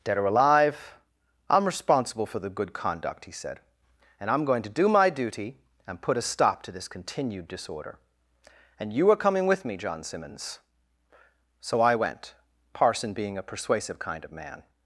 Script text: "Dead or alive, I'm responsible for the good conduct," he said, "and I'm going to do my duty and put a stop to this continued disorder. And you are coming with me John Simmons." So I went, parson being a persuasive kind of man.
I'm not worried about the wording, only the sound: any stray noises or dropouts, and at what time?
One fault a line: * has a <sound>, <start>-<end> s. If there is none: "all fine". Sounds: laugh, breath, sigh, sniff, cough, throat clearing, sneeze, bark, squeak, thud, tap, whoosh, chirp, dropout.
all fine